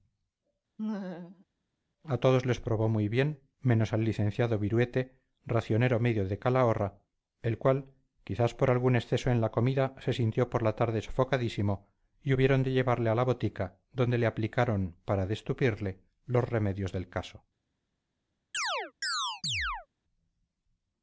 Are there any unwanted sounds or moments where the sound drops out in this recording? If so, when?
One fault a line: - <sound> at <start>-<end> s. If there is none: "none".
- laugh at 0.8-1.5 s
- chirp at 18.5-19.9 s